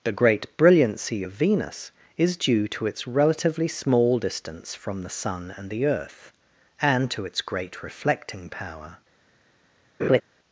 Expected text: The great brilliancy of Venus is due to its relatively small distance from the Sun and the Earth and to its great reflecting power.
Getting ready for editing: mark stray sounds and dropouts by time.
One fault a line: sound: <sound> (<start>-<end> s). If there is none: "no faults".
sound: laugh (10.0-10.2 s)